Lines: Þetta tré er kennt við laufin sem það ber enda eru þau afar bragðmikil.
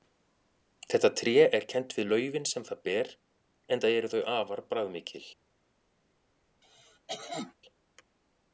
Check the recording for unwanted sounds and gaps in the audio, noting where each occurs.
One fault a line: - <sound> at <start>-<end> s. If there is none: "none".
- cough at 6.6-7.5 s